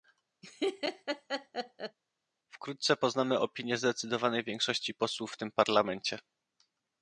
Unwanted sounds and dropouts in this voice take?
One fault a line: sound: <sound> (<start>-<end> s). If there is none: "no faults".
sound: laugh (0.4-2.0 s)